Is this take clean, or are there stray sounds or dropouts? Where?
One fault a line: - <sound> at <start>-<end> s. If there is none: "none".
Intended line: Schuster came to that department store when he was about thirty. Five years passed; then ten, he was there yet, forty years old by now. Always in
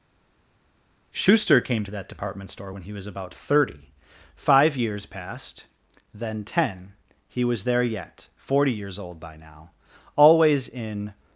none